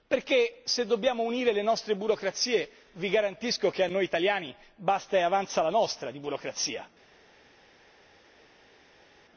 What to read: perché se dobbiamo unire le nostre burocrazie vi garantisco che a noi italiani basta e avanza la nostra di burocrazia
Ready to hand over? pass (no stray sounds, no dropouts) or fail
pass